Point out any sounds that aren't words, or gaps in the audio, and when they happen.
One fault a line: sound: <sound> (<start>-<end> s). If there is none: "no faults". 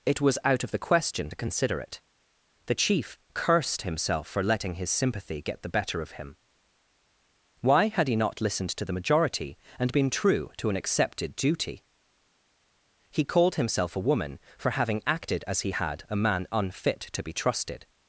no faults